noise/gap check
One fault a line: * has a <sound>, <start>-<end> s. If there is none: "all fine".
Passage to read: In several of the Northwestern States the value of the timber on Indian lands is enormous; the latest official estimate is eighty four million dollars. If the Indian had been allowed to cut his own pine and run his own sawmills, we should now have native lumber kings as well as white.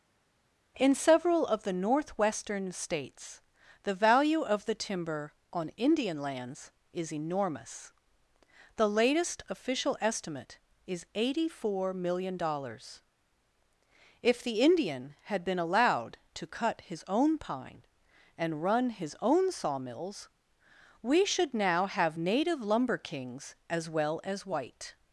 all fine